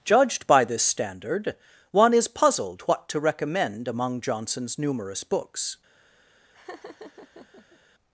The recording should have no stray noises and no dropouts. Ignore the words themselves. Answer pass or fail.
fail